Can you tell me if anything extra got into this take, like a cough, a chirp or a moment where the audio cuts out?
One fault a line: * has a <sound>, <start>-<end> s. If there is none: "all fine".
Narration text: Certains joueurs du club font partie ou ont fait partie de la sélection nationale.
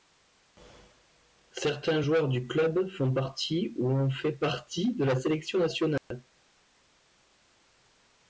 * has a dropout, 6.0-6.1 s